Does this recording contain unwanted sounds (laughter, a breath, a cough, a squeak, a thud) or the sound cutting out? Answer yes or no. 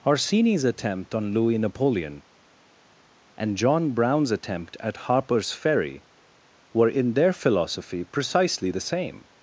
no